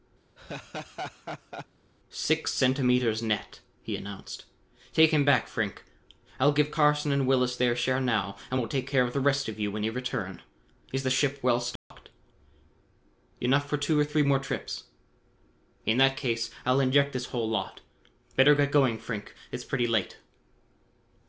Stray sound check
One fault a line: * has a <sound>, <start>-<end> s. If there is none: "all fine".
* has a laugh, 0.4-1.7 s
* has a dropout, 11.8-11.9 s